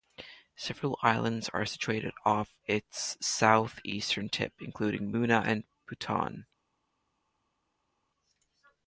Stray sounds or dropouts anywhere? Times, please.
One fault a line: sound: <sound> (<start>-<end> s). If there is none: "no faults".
no faults